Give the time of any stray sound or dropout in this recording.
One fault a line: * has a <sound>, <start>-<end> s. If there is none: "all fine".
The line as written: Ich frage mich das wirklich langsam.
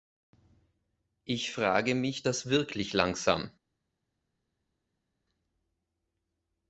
all fine